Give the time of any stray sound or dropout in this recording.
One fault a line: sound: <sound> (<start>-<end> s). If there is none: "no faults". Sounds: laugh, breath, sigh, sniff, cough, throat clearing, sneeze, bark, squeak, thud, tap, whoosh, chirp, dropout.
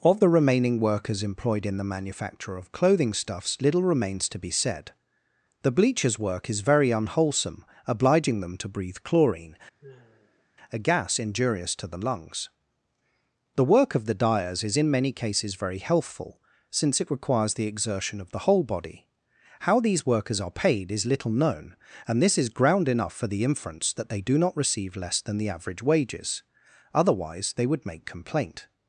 sound: sigh (9.8-10.5 s)